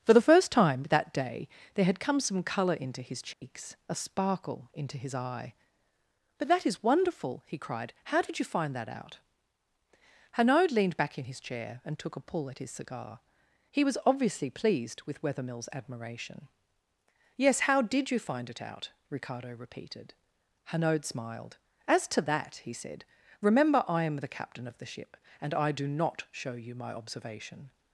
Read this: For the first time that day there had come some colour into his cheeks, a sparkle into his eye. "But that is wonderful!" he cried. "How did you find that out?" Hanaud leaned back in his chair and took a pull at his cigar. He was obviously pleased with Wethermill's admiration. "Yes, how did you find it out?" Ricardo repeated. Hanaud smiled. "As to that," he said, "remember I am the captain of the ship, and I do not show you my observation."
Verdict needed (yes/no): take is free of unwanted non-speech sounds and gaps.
no